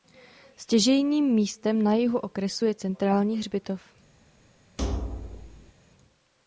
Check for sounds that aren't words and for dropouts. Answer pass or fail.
fail